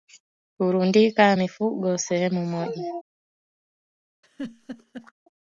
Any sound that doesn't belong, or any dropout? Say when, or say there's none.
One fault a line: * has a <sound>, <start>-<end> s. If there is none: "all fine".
* has a laugh, 4.2-5.1 s